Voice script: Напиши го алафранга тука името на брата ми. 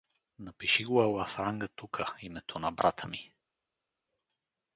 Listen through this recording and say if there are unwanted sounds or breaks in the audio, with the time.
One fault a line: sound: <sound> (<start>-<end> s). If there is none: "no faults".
no faults